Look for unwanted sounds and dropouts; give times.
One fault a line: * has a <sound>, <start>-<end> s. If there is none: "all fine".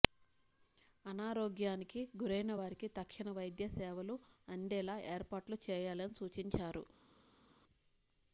all fine